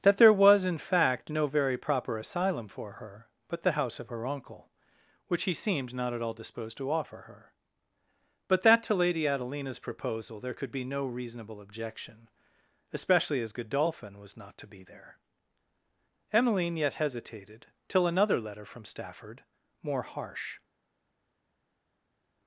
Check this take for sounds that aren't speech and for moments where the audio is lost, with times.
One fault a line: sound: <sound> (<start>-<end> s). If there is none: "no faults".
no faults